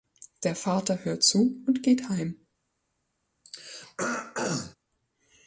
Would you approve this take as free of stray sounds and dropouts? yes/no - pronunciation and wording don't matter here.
no